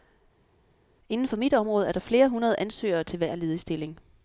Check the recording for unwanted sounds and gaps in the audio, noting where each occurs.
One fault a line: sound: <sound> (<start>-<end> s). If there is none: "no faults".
no faults